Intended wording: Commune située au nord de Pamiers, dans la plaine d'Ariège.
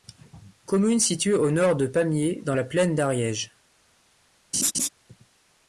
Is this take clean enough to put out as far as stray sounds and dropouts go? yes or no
no